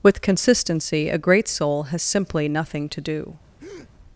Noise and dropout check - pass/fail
fail